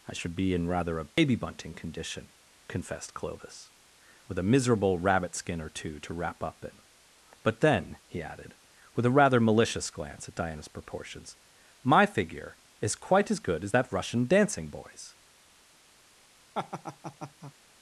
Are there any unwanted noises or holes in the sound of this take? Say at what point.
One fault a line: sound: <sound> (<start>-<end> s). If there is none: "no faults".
sound: dropout (1.1-1.2 s)
sound: laugh (16.5-17.5 s)